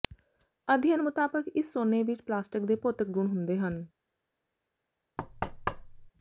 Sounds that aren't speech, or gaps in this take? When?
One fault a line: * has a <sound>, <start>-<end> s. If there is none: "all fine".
* has a thud, 5.2-6.1 s